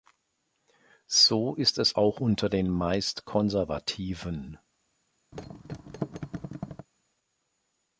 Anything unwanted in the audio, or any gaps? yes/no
yes